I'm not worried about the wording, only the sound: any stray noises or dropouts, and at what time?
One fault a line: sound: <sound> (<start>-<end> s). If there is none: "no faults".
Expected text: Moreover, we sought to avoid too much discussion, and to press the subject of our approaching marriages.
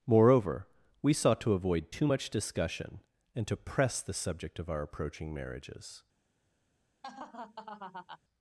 sound: laugh (7.0-8.2 s)